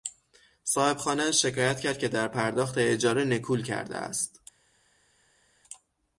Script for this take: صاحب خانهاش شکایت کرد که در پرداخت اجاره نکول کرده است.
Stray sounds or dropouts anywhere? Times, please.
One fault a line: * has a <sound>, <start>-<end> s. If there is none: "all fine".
all fine